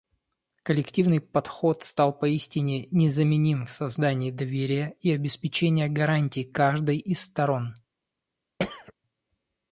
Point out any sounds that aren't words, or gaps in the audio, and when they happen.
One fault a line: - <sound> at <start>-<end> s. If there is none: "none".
- throat clearing at 8.6-8.9 s